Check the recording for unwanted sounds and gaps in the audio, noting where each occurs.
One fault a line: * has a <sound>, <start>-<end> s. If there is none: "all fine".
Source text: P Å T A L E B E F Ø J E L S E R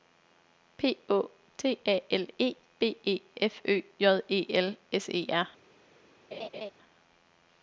* has a laugh, 6.3-6.7 s